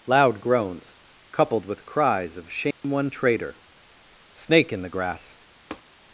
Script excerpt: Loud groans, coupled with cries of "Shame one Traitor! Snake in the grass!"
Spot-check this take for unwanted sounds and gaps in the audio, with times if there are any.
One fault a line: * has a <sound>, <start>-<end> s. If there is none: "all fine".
* has a dropout, 2.7-2.8 s
* has a tap, 5.7-5.8 s